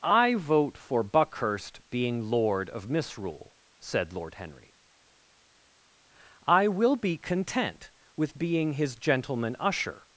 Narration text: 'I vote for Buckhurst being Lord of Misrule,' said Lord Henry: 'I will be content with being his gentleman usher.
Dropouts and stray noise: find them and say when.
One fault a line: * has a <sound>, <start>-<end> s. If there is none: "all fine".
all fine